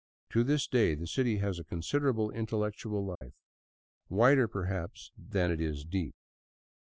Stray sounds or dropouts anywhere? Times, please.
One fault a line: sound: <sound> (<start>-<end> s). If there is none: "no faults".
sound: dropout (3.2-3.2 s)